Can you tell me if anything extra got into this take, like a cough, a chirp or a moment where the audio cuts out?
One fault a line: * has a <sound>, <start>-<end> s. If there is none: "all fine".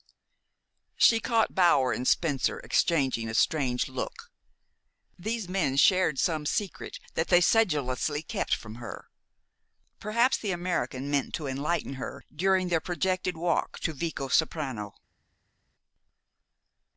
all fine